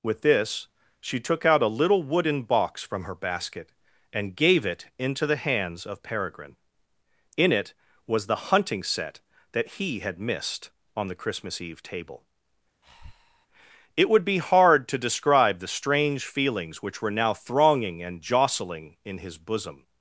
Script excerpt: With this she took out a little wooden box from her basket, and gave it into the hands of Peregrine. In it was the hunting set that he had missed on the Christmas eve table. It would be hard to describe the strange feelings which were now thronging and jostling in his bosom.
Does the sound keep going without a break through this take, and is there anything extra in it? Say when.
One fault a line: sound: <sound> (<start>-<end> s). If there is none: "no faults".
sound: breath (12.8-13.5 s)